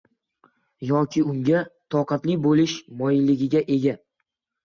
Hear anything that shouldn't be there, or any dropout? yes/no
no